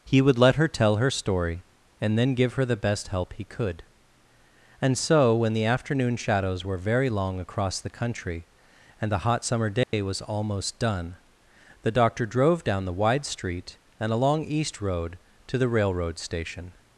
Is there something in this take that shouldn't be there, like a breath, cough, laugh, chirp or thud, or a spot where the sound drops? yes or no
yes